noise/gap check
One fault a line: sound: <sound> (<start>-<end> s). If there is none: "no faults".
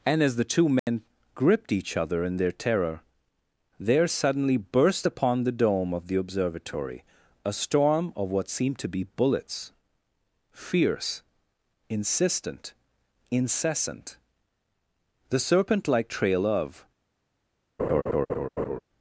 sound: dropout (0.8-0.9 s)
sound: laugh (17.8-18.8 s)